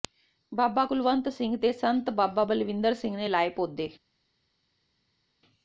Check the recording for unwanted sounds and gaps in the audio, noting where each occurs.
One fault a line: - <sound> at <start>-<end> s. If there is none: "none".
none